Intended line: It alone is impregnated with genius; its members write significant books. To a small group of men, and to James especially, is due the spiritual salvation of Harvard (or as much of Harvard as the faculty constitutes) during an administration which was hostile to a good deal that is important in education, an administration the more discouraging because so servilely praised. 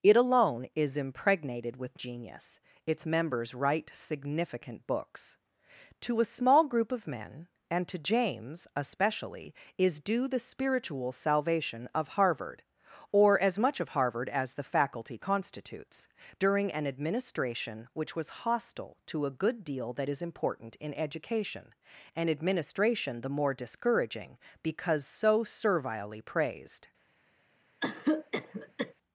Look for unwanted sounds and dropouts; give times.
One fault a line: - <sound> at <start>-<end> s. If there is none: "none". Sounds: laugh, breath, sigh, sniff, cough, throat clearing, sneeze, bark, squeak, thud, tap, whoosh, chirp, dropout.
- cough at 27.8-28.9 s